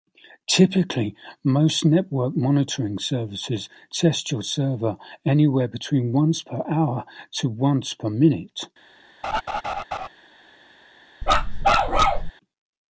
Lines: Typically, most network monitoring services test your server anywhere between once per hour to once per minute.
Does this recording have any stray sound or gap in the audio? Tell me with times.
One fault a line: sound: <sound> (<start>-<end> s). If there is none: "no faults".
sound: laugh (9.2-10.1 s)
sound: bark (11.2-12.3 s)